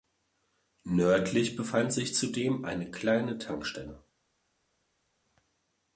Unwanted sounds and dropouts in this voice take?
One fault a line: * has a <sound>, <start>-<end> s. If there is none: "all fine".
all fine